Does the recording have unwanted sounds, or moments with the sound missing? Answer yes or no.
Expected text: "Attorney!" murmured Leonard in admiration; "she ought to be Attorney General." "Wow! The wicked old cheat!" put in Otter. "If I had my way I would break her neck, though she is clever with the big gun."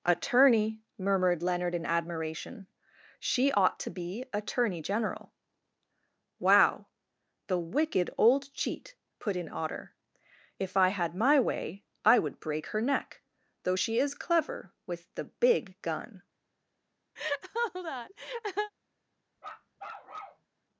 yes